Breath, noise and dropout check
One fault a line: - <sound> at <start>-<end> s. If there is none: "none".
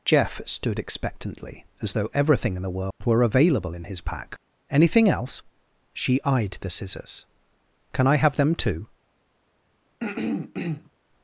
- dropout at 2.9-3.0 s
- throat clearing at 10.0-10.9 s